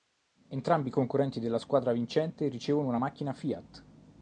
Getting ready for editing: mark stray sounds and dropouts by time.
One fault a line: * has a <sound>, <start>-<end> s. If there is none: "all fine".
all fine